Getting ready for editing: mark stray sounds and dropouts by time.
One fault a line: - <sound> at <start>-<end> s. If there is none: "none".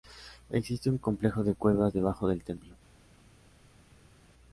none